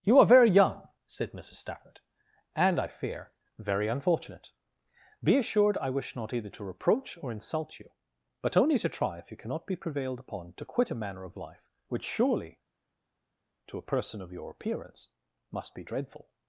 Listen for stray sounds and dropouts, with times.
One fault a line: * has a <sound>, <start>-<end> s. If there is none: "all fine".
all fine